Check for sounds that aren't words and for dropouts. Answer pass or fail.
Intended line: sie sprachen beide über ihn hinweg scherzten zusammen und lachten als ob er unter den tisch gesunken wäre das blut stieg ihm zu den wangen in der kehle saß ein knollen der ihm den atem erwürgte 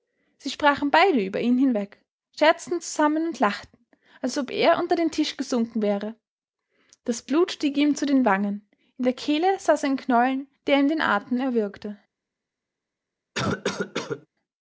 fail